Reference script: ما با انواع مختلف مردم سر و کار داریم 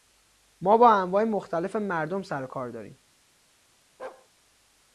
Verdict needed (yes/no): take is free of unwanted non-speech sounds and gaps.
no